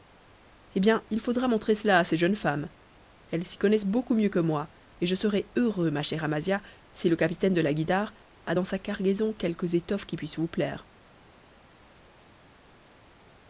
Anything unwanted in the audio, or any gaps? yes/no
no